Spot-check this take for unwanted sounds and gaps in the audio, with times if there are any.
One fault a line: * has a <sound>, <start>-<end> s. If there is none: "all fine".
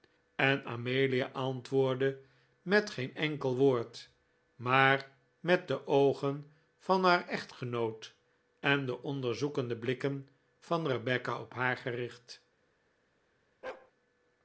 * has a bark, 13.6-13.9 s